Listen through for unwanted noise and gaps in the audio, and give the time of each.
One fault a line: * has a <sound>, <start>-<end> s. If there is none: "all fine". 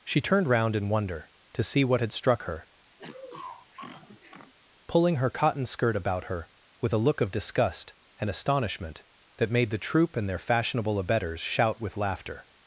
* has a sniff, 3.0-4.5 s